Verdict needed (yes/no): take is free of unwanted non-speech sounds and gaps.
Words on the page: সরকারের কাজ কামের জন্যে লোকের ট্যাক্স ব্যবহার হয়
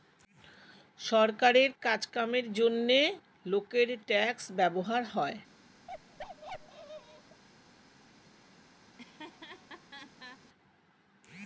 no